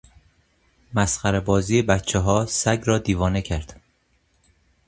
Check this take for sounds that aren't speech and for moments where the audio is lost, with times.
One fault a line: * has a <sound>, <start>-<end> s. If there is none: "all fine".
all fine